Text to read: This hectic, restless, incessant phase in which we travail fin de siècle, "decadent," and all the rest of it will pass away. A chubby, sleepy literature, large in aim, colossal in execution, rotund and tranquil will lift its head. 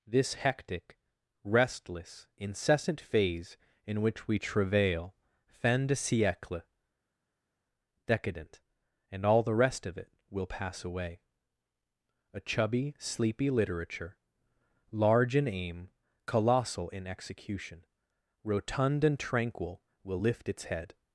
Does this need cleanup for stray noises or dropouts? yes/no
no